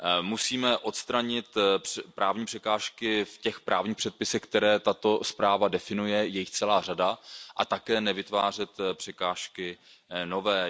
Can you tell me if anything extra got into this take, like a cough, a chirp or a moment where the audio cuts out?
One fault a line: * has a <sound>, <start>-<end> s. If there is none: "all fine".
all fine